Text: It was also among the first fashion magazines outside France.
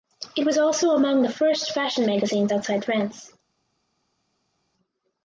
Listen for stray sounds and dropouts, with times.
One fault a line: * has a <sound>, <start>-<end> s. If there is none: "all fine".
all fine